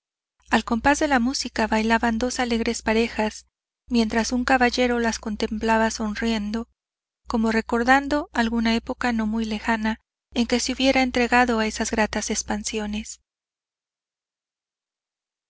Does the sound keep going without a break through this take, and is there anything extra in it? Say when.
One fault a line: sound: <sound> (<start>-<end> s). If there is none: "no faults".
no faults